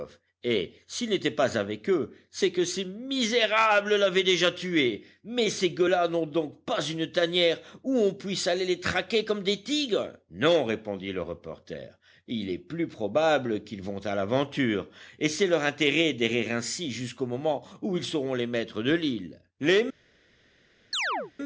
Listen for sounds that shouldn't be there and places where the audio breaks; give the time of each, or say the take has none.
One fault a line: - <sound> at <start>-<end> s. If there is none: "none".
- chirp at 20.9-21.3 s